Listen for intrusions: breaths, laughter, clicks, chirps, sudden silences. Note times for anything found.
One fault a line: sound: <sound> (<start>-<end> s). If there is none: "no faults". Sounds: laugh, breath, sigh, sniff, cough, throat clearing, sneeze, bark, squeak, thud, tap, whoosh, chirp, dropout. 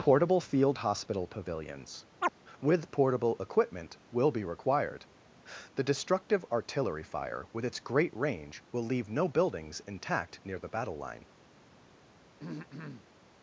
sound: chirp (2.2-2.3 s)
sound: throat clearing (12.4-13.1 s)